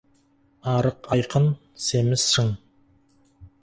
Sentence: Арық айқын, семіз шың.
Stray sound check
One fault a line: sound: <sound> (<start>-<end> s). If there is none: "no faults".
no faults